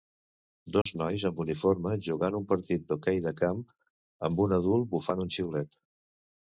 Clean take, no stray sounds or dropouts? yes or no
no